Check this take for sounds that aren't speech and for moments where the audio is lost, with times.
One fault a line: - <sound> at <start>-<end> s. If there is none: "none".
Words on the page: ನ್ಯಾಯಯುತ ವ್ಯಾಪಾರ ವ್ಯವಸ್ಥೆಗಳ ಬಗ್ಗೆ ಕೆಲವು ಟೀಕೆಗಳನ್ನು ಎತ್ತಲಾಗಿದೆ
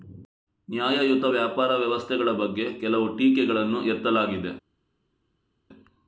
none